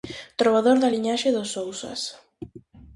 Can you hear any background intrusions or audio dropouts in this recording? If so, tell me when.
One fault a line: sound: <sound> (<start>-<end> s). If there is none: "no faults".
no faults